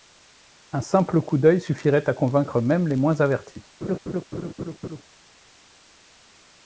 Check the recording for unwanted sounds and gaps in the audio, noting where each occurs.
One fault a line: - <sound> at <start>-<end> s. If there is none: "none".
- laugh at 3.8-5.0 s